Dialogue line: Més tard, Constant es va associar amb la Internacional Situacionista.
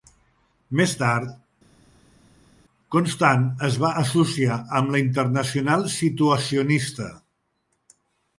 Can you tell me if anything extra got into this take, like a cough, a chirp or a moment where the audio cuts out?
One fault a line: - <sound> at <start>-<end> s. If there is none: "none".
none